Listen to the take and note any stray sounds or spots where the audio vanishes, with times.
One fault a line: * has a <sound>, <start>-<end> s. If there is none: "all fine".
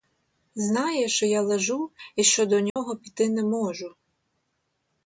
* has a dropout, 2.7-2.8 s